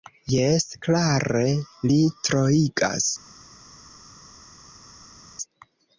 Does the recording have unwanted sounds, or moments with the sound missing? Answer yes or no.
no